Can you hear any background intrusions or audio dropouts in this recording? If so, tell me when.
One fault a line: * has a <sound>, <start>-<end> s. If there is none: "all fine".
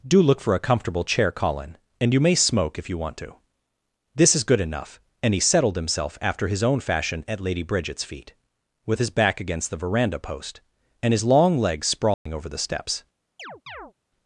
* has a dropout, 12.1-12.3 s
* has a chirp, 13.4-13.9 s